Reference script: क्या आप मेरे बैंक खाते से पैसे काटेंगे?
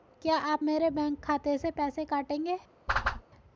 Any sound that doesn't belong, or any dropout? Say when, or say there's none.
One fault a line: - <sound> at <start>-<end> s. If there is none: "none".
- whoosh at 2.9-3.2 s